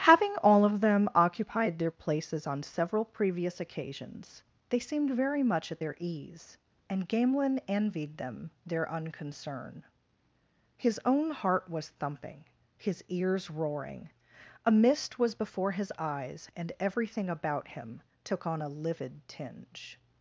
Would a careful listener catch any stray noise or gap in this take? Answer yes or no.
no